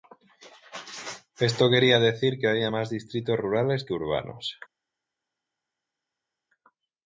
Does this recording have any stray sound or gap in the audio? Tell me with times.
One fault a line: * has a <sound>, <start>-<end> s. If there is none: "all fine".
all fine